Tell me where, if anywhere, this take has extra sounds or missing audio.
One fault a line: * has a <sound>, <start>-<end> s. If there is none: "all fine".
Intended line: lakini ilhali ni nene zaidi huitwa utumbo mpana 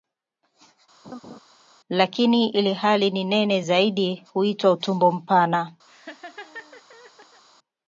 * has a laugh, 1.0-1.4 s
* has a laugh, 5.9-7.4 s